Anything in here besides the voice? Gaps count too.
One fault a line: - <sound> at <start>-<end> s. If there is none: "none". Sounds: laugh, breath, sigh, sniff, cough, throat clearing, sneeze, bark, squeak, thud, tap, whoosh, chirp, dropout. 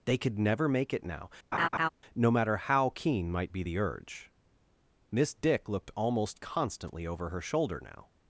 - laugh at 1.5-1.9 s